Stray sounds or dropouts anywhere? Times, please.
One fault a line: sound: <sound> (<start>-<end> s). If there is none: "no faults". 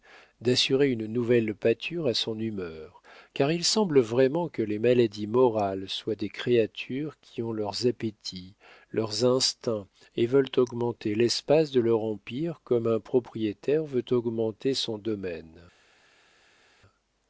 no faults